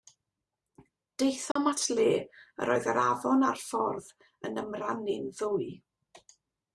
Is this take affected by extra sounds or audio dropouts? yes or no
yes